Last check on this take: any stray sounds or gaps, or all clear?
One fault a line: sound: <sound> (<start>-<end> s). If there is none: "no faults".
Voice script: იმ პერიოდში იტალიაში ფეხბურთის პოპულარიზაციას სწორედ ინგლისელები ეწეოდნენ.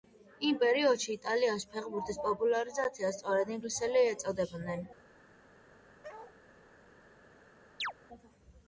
sound: bark (6.0-6.4 s)
sound: chirp (7.8-7.9 s)